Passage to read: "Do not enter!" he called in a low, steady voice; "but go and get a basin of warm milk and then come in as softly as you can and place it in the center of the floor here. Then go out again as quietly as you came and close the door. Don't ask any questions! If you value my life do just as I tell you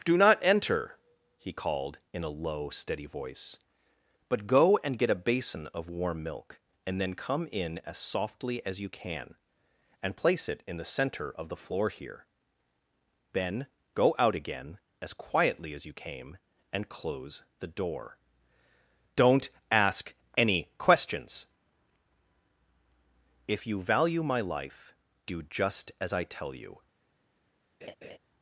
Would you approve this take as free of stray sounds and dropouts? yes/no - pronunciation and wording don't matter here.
no